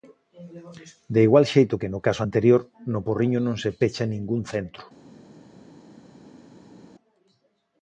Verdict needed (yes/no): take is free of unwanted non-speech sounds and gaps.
yes